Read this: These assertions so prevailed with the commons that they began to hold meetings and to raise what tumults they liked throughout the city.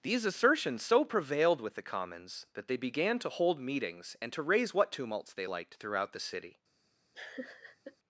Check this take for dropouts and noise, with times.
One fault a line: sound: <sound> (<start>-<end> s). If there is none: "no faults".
sound: laugh (7.1-8.0 s)